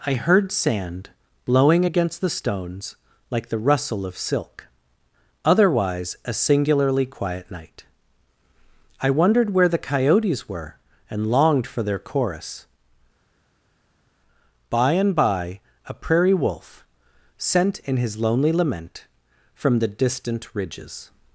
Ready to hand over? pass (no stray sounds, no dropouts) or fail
pass